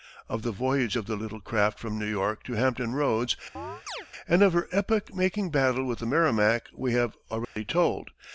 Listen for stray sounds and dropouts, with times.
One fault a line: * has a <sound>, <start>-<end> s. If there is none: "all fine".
* has a chirp, 3.6-4.1 s
* has a dropout, 7.4-7.6 s